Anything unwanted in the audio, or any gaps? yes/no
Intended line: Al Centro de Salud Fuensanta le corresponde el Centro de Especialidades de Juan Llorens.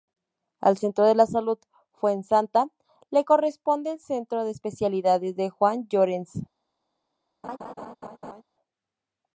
yes